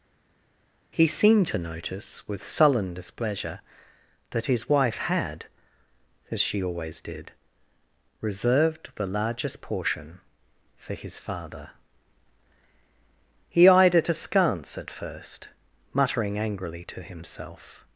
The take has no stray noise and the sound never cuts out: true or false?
true